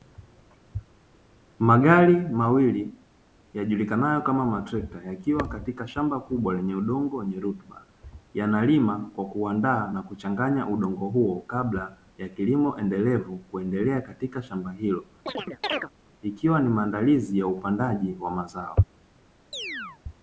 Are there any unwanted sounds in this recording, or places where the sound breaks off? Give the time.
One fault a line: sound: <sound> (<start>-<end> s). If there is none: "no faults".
sound: chirp (15.3-15.9 s)
sound: chirp (19.5-20.0 s)